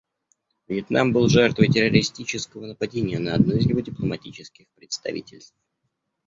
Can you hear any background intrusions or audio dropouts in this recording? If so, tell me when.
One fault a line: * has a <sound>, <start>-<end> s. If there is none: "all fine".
all fine